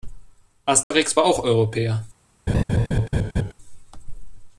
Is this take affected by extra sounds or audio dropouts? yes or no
yes